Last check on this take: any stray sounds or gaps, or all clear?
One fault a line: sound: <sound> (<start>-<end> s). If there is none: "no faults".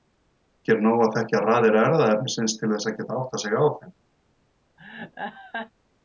sound: laugh (4.8-5.7 s)